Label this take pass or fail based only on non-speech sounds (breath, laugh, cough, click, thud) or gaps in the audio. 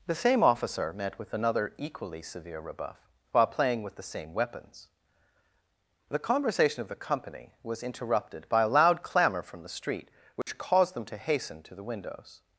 fail